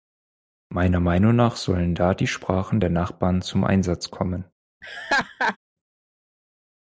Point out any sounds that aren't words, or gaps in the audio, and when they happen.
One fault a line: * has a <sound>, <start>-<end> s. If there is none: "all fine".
* has a laugh, 4.8-5.6 s